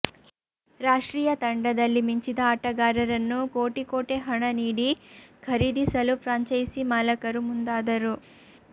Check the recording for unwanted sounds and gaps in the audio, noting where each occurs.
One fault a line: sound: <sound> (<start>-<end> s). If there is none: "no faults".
no faults